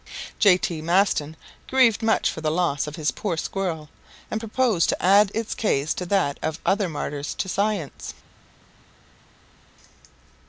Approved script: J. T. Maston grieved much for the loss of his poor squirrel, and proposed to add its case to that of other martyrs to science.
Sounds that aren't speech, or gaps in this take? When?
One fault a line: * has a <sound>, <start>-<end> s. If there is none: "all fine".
all fine